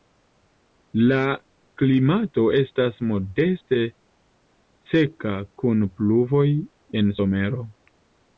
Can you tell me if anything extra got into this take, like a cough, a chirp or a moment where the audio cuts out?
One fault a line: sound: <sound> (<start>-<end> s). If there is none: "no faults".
no faults